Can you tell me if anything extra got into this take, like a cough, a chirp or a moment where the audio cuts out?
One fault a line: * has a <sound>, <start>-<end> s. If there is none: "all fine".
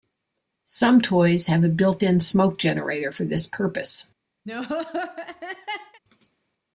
* has a laugh, 4.4-6.0 s